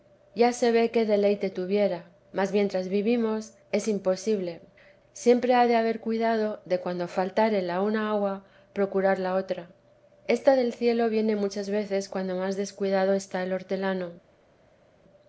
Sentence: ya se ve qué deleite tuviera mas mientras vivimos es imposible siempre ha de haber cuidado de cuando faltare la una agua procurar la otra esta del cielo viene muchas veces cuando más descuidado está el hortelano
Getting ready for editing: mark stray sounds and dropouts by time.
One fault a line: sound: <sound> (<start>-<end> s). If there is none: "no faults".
no faults